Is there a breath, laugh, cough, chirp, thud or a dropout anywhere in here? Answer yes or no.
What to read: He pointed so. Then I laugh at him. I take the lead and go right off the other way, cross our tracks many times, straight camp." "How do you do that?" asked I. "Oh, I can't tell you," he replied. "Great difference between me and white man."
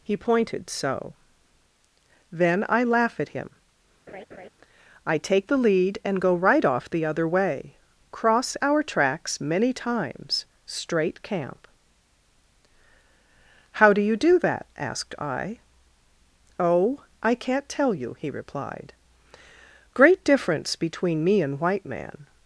yes